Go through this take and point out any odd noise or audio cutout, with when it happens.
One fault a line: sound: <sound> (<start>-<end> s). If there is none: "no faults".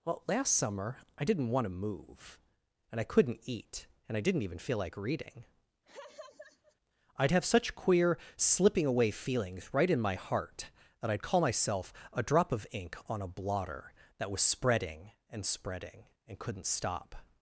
sound: laugh (5.9-6.8 s)